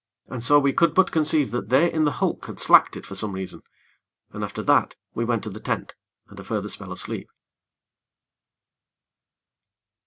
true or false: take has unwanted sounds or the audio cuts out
false